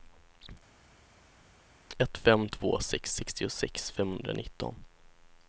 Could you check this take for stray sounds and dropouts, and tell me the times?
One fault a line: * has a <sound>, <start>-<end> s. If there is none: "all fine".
all fine